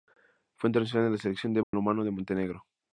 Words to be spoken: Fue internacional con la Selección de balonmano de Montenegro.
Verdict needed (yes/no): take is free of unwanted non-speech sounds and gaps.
no